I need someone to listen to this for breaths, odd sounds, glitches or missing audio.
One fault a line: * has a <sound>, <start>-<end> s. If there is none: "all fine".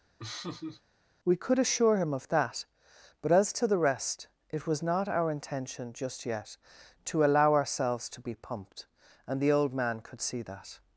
* has a laugh, 0.2-0.8 s